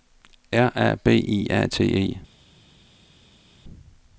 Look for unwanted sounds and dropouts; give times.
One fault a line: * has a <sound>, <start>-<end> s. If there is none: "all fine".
all fine